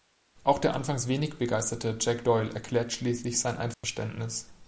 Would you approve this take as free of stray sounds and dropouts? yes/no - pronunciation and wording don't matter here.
no